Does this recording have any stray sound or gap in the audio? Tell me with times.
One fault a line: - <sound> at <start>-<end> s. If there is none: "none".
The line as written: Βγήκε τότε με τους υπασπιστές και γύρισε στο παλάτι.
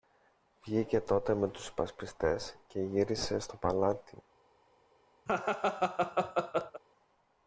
- laugh at 5.3-6.8 s